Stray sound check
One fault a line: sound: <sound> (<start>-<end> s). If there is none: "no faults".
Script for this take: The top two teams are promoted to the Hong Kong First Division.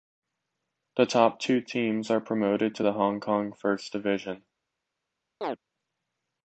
sound: chirp (5.4-5.6 s)